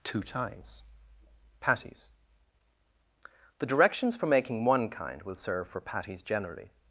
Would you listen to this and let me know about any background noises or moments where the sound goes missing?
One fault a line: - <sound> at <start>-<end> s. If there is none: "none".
none